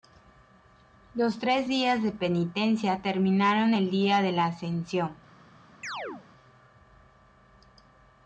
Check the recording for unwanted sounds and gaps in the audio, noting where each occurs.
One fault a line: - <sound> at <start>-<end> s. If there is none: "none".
- chirp at 5.8-6.3 s